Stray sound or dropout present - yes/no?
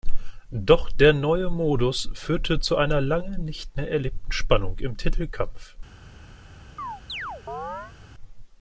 yes